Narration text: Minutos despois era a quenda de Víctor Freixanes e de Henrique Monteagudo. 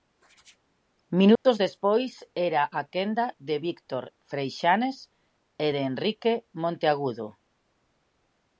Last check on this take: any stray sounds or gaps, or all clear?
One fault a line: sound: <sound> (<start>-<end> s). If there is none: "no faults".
sound: dropout (1.4-1.5 s)